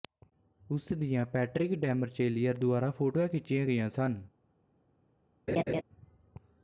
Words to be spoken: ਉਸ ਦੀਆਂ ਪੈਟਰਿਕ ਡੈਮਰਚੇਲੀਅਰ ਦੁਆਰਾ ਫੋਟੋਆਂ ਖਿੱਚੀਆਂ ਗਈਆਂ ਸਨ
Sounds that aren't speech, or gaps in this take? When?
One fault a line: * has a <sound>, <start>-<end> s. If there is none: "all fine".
* has a laugh, 5.5-5.8 s